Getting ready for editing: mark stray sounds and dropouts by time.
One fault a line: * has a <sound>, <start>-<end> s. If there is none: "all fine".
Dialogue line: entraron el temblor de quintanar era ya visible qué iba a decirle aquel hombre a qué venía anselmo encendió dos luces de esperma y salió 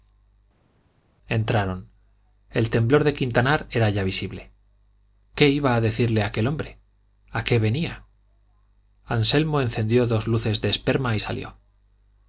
all fine